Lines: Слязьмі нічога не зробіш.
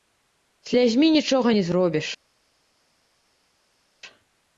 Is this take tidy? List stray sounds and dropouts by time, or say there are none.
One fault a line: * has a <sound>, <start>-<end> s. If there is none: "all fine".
all fine